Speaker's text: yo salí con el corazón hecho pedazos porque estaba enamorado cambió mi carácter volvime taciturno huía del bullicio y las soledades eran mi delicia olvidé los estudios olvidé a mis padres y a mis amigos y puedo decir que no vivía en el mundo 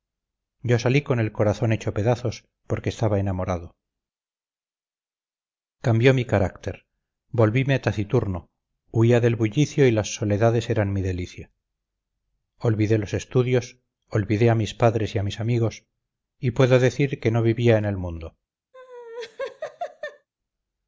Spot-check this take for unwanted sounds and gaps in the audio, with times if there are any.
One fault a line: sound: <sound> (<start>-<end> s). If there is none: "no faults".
sound: laugh (18.7-20.3 s)